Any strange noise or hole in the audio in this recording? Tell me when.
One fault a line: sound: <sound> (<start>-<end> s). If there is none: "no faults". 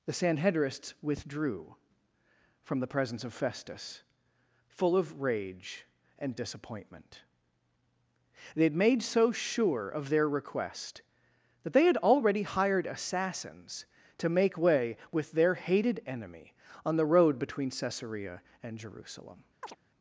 sound: chirp (19.6-19.8 s)